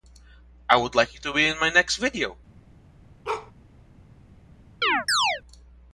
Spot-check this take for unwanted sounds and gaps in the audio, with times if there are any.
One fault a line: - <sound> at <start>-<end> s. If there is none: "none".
- bark at 3.2-3.5 s
- chirp at 4.8-5.4 s